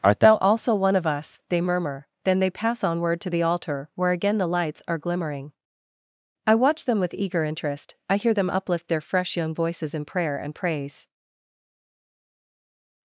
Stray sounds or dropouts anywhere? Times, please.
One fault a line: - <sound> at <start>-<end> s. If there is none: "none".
none